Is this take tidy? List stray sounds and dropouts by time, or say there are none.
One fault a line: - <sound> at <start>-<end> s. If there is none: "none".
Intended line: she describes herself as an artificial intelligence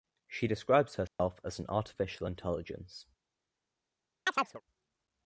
- dropout at 1.1-1.2 s
- chirp at 4.3-4.6 s